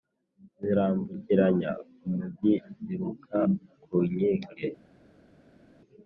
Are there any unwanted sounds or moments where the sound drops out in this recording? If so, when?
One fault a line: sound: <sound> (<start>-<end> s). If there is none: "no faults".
no faults